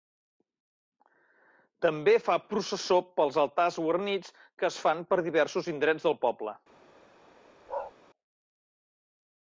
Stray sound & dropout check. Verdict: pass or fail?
fail